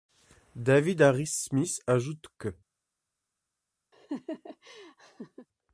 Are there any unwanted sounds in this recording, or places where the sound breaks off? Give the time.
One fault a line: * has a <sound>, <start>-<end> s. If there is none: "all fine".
* has a laugh, 3.9-5.5 s